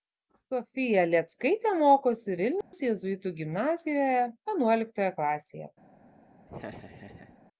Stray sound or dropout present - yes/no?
yes